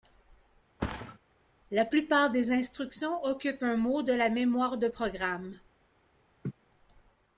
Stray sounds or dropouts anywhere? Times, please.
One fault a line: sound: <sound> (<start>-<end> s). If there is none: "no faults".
sound: thud (0.8-1.2 s)
sound: laugh (6.4-6.5 s)